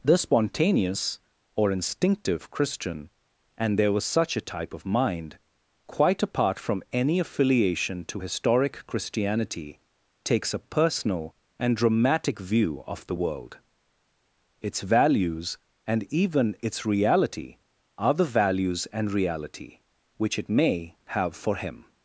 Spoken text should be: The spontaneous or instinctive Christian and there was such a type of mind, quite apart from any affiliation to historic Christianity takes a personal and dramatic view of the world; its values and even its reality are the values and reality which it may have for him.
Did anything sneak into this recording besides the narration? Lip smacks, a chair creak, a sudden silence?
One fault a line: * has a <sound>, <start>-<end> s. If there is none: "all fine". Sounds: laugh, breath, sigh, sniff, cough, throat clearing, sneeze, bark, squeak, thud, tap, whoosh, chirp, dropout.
all fine